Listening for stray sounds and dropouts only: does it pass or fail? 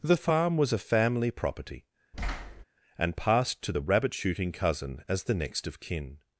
fail